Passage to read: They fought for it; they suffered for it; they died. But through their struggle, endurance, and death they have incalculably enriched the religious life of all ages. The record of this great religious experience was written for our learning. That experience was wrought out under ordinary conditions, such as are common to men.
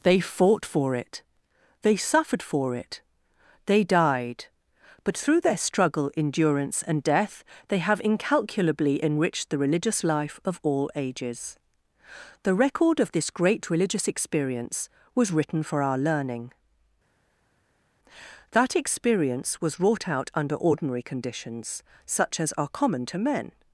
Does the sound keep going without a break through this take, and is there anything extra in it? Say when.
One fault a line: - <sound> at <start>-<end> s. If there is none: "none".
none